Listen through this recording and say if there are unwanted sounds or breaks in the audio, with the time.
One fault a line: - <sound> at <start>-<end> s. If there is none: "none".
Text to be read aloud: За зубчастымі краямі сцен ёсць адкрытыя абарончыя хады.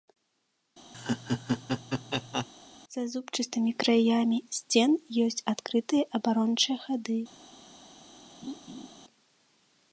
- laugh at 0.9-2.5 s
- laugh at 8.4-8.9 s